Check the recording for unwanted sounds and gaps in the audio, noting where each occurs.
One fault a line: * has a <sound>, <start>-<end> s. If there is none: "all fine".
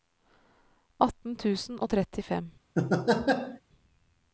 * has a laugh, 2.8-3.6 s